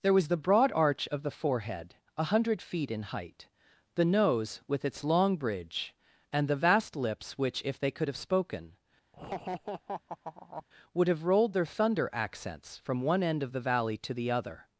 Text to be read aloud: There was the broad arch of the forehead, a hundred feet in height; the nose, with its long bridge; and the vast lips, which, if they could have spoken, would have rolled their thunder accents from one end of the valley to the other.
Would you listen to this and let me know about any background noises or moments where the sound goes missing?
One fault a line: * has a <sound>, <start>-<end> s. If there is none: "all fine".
* has a laugh, 9.1-10.6 s